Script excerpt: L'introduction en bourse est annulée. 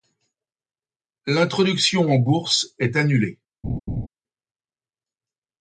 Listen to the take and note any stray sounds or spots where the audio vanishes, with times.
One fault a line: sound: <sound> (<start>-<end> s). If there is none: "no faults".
sound: laugh (3.6-4.1 s)